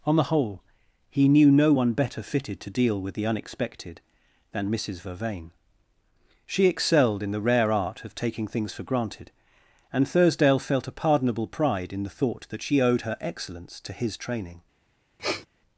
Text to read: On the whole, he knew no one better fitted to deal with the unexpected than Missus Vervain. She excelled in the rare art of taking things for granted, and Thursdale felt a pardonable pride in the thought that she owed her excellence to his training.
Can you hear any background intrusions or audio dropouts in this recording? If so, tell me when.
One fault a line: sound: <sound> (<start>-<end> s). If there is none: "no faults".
sound: sniff (15.2-15.5 s)